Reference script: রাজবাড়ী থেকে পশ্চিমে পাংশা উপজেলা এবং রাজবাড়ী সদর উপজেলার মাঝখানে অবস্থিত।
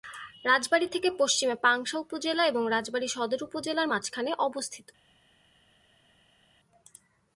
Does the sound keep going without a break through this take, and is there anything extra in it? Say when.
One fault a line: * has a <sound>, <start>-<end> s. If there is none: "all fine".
all fine